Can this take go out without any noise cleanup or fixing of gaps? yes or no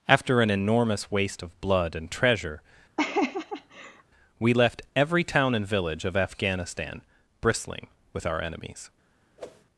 no